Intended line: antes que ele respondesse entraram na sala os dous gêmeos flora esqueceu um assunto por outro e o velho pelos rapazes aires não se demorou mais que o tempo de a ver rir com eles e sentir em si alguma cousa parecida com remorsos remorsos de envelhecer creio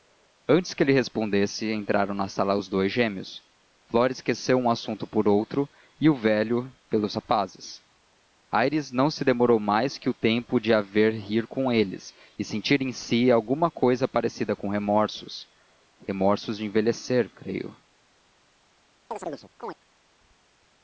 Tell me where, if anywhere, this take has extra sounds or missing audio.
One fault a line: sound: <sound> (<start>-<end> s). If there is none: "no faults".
sound: chirp (19.1-19.8 s)